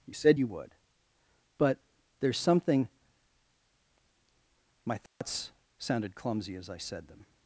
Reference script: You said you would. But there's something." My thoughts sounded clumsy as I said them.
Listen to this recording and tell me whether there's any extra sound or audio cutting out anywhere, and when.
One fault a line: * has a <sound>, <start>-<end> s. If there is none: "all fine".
* has a dropout, 5.1-5.2 s